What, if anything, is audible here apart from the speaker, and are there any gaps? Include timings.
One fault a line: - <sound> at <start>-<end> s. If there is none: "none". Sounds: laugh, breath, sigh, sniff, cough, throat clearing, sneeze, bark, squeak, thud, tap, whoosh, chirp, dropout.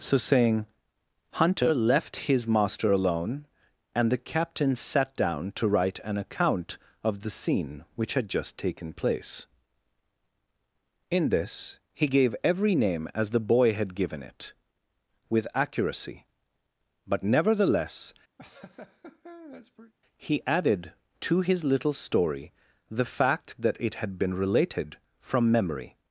- laugh at 18.4-19.9 s